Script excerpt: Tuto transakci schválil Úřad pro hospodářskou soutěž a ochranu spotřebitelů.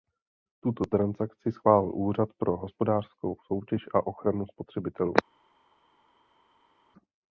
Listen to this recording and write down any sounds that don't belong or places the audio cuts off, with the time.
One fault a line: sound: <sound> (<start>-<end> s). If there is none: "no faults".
no faults